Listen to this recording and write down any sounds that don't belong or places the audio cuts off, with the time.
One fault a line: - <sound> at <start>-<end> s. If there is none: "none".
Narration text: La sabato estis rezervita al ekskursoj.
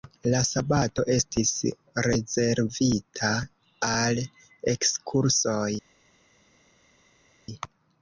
none